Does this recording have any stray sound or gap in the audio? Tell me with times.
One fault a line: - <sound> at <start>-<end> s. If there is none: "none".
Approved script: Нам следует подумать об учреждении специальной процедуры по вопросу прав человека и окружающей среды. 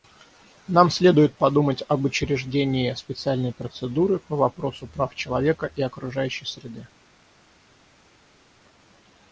none